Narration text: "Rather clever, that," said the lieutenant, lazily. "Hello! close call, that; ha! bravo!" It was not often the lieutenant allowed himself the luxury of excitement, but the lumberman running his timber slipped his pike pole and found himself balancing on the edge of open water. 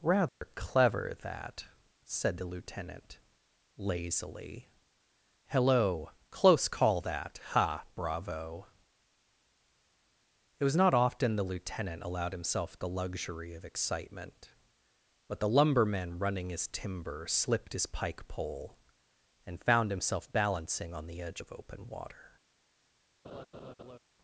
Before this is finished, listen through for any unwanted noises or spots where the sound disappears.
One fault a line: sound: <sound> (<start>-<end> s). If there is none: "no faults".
sound: dropout (0.3-0.4 s)
sound: laugh (23.2-24.0 s)